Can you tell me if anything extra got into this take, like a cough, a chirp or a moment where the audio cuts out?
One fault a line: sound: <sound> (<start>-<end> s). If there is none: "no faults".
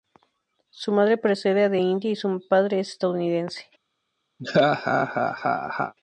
sound: laugh (4.4-5.9 s)